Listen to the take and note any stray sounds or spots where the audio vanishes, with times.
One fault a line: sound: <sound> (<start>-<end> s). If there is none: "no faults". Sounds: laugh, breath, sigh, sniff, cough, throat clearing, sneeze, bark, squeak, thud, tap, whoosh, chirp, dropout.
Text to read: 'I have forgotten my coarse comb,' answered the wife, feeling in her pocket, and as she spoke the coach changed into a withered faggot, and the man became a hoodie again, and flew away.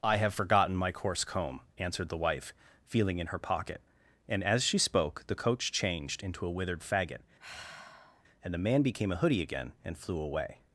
sound: sigh (7.4-8.2 s)